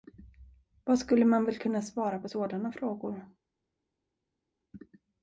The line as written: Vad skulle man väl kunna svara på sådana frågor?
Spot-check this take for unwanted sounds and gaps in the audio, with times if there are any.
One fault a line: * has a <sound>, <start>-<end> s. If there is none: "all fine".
all fine